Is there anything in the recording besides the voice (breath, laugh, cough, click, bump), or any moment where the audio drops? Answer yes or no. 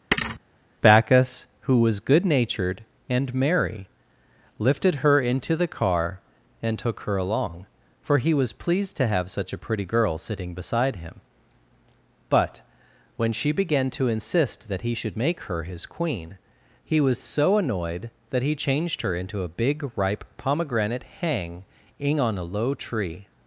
yes